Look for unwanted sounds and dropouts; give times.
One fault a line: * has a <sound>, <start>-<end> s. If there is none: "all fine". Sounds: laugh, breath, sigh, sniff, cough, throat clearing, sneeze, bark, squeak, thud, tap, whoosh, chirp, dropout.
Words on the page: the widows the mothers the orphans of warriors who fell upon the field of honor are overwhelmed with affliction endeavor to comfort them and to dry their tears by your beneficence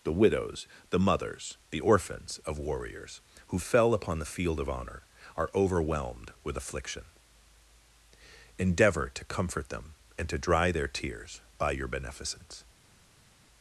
all fine